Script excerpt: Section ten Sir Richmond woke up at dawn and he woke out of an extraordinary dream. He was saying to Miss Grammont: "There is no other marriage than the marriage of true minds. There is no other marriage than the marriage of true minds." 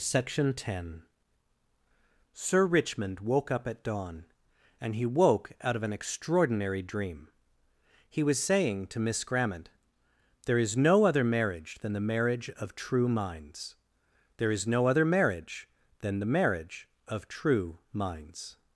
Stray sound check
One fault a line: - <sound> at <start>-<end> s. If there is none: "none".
none